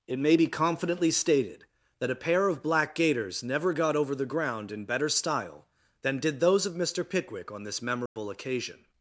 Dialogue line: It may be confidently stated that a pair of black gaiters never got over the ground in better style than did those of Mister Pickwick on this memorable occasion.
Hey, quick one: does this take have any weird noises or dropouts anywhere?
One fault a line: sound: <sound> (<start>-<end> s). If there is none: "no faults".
sound: dropout (8.1-8.2 s)